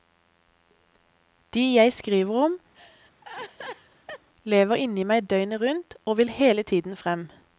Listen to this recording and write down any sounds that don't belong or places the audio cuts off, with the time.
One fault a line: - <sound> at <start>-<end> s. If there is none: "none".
- laugh at 2.7-4.3 s